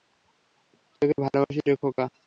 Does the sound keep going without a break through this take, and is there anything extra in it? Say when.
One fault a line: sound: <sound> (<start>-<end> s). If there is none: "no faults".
no faults